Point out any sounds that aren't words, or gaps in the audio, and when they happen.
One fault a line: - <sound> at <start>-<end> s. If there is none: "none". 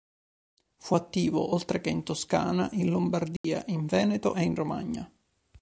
- dropout at 3.4-3.4 s